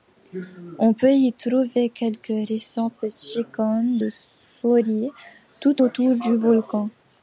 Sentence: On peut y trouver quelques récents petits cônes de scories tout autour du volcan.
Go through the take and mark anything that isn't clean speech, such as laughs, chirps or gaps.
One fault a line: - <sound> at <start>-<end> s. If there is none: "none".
none